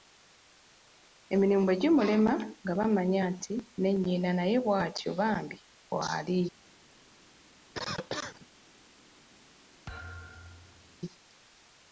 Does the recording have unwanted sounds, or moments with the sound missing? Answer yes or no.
yes